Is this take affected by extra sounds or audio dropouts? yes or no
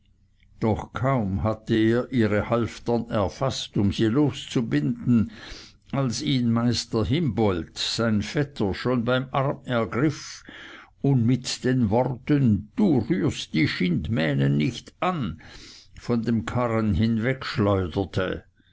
no